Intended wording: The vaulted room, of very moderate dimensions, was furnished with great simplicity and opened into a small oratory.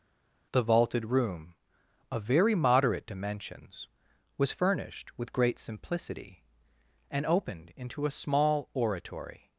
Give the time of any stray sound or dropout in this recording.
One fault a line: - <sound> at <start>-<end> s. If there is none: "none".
none